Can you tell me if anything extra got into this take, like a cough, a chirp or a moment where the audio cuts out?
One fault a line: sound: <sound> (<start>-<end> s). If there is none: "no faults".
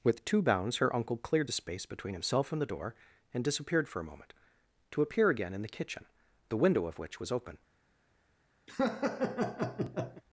sound: laugh (8.7-10.2 s)